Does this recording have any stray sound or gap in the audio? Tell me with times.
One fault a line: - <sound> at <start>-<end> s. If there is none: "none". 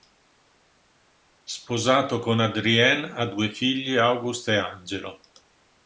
none